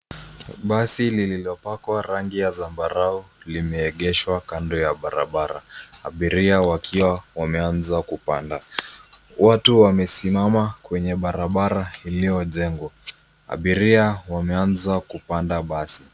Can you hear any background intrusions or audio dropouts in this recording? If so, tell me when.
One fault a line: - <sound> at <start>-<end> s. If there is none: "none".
none